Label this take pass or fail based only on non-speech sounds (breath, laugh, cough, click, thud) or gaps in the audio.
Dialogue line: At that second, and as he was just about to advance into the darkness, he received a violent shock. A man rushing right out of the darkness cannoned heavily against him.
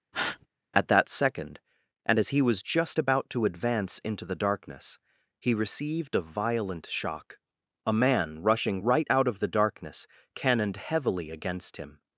fail